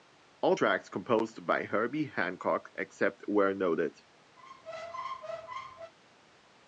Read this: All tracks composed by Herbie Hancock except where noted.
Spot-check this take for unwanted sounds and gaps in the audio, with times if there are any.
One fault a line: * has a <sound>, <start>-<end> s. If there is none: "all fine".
* has a squeak, 4.4-5.9 s